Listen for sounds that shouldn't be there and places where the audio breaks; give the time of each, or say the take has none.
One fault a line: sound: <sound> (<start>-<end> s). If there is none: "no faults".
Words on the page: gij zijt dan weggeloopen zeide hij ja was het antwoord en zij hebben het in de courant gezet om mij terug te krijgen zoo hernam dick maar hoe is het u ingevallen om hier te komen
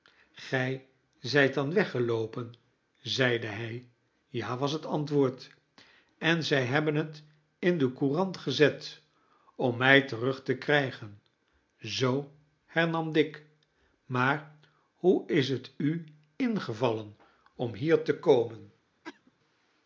sound: cough (19.0-19.3 s)